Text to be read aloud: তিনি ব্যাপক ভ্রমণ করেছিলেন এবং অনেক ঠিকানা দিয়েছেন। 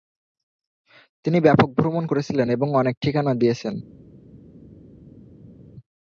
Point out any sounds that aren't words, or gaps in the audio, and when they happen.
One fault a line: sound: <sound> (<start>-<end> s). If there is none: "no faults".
no faults